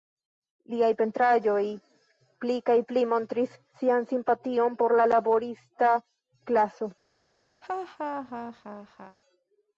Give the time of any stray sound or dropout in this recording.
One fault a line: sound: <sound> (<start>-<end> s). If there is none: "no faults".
sound: laugh (7.6-9.2 s)